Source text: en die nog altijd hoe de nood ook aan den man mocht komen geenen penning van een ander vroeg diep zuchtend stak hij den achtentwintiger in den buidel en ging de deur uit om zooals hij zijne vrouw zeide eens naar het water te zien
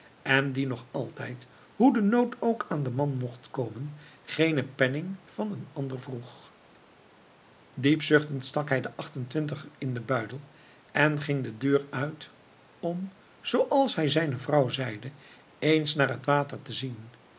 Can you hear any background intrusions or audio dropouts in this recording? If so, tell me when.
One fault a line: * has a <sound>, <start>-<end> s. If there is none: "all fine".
all fine